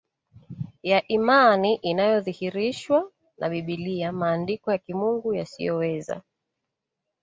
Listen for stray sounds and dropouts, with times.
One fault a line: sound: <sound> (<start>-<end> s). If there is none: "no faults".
no faults